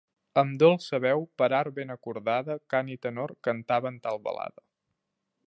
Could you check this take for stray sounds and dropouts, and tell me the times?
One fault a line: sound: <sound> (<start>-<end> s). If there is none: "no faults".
no faults